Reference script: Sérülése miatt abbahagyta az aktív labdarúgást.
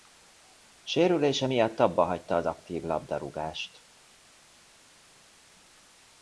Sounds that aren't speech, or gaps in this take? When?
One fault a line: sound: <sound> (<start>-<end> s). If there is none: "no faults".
no faults